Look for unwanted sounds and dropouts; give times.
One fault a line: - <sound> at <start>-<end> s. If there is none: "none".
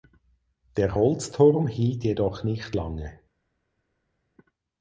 none